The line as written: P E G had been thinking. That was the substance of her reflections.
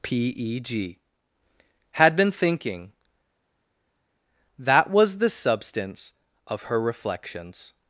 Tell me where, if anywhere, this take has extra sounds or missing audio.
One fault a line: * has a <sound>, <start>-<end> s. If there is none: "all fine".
all fine